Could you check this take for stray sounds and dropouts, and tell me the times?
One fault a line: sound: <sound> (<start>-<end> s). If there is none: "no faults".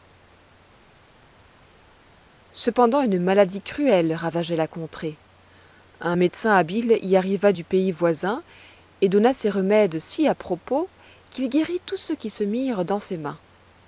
no faults